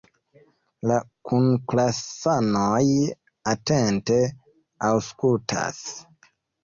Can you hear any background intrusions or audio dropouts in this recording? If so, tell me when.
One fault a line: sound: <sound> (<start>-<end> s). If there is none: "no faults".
no faults